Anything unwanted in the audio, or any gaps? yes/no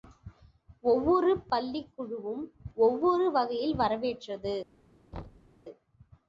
yes